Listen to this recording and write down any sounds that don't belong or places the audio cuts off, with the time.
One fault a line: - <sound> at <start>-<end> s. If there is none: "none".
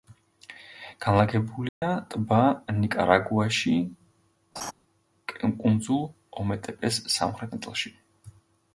- dropout at 1.7-1.8 s
- laugh at 4.6-4.7 s